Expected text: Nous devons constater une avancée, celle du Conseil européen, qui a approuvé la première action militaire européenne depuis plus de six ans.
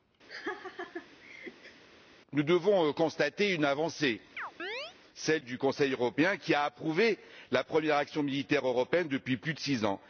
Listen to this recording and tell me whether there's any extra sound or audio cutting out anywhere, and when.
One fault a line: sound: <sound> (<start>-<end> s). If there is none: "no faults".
sound: laugh (0.3-1.8 s)
sound: chirp (4.4-5.0 s)